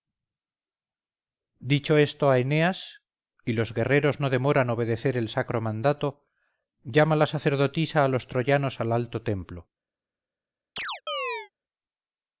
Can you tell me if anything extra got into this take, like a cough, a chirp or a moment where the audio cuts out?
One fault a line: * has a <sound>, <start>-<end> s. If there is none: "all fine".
* has a chirp, 10.8-11.5 s